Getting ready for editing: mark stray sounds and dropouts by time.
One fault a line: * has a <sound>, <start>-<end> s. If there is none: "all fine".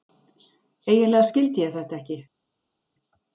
all fine